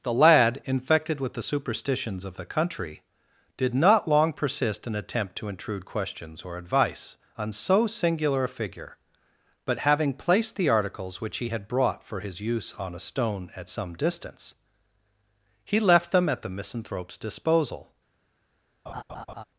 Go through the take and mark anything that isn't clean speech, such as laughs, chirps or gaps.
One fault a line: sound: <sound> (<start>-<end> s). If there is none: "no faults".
sound: laugh (18.9-19.4 s)